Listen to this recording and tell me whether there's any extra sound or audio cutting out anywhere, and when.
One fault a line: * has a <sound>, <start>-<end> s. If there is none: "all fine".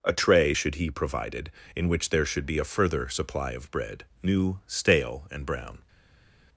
all fine